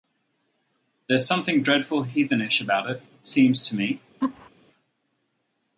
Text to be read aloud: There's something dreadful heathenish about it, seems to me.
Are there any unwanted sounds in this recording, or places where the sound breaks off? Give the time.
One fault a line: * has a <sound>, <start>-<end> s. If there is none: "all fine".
* has a laugh, 4.2-4.5 s